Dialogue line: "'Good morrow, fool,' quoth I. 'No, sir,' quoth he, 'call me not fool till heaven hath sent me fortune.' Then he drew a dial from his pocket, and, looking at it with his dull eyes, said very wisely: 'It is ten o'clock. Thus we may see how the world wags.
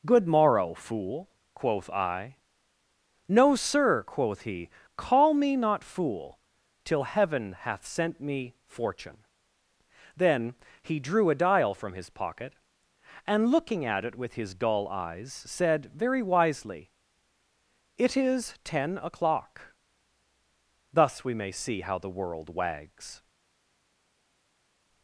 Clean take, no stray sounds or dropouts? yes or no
yes